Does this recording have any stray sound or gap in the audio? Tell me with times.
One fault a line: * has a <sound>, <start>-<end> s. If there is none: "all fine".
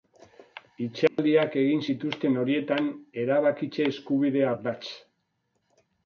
* has a dropout, 1.1-1.2 s